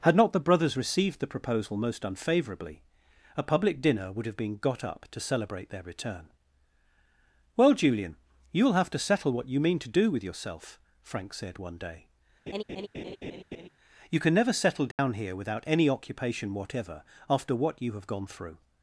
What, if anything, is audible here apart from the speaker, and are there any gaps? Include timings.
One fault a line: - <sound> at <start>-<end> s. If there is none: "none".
- laugh at 12.5-13.7 s
- dropout at 14.9-15.0 s